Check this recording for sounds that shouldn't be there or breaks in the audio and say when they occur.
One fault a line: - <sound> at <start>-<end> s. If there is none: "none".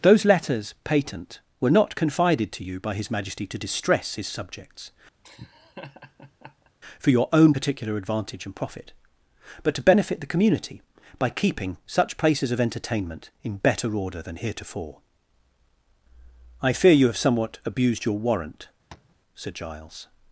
- laugh at 5.2-6.7 s
- tap at 18.9-19.2 s